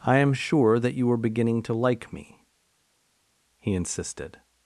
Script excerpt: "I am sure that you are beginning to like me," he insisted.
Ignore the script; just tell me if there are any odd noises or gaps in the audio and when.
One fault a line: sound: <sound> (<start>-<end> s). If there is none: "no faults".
no faults